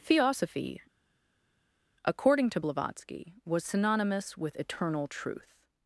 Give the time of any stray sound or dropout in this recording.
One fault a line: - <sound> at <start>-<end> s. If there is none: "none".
none